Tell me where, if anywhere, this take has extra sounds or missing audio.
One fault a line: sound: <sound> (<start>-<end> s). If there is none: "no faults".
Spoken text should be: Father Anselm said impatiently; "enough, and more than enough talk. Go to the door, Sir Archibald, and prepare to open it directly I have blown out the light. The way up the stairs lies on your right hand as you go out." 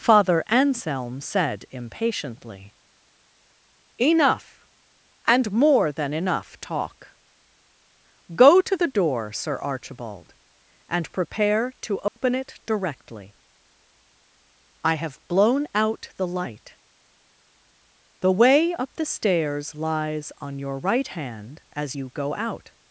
sound: dropout (12.1-12.2 s)